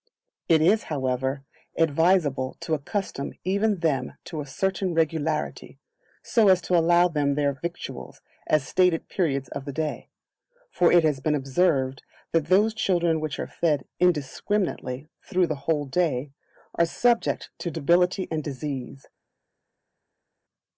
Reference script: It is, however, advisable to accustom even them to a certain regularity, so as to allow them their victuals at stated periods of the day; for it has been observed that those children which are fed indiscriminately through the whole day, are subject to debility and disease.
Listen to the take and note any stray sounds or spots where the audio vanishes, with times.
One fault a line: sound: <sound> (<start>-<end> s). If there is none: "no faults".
no faults